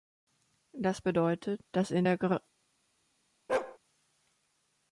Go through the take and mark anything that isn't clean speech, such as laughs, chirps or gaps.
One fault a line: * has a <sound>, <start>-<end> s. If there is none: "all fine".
* has a bark, 3.5-3.8 s